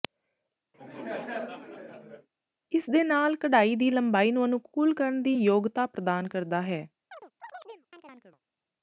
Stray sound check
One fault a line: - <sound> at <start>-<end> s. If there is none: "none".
- laugh at 0.7-2.3 s
- chirp at 7.1-8.4 s